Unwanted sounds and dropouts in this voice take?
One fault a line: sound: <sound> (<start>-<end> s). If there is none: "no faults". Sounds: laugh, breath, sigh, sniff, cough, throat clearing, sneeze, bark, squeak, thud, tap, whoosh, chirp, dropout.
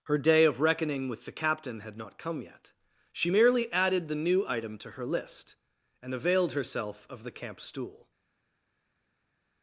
no faults